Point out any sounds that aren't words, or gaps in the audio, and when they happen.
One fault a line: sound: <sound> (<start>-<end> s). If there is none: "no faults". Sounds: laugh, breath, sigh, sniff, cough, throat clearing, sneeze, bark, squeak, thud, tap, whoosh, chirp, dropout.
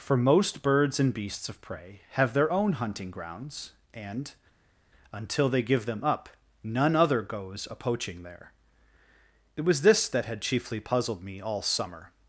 no faults